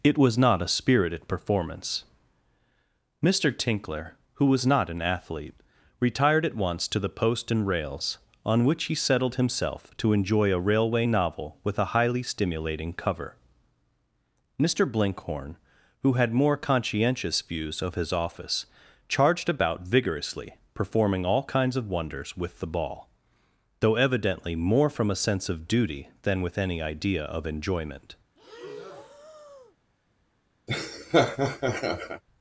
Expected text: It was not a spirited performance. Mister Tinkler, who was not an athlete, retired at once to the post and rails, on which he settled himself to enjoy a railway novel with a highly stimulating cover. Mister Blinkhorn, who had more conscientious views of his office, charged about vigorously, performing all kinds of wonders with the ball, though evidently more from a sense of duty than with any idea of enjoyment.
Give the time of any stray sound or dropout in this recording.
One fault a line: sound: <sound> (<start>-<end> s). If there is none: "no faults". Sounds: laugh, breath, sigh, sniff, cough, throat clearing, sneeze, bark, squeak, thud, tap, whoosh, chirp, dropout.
sound: breath (28.4-29.8 s)
sound: laugh (30.7-32.2 s)